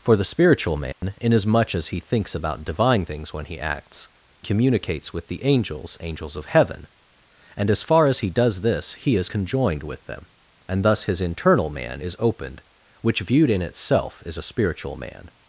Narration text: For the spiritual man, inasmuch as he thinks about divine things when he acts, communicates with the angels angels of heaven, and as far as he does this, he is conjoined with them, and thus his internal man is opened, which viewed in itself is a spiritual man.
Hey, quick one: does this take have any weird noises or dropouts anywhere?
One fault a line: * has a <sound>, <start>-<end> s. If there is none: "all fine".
* has a dropout, 0.9-1.0 s